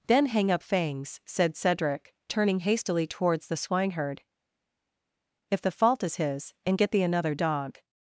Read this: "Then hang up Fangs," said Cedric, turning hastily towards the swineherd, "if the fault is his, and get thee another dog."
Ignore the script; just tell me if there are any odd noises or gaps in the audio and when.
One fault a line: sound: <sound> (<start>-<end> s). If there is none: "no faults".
no faults